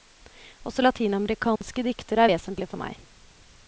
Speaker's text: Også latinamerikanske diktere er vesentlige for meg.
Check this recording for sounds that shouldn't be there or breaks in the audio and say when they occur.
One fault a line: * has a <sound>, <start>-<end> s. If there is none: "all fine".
* has a dropout, 1.6-1.6 s